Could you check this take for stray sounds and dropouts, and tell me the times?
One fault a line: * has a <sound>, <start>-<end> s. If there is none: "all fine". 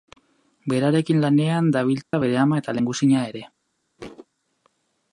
* has a dropout, 2.0-2.1 s
* has a thud, 4.0-4.3 s